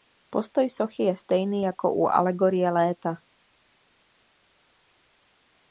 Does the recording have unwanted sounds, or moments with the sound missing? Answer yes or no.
no